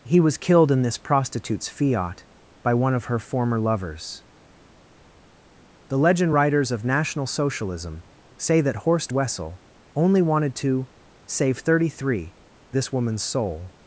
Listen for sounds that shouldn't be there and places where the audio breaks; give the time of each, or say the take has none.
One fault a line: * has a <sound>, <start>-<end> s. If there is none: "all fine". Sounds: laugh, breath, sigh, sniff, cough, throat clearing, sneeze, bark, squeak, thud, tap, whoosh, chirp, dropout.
all fine